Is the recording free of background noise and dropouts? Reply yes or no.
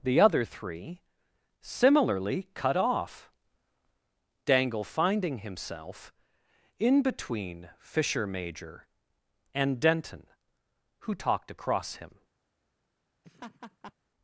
no